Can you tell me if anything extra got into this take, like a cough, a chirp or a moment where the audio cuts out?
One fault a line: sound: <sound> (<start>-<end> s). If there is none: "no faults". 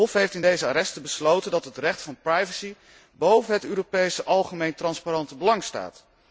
no faults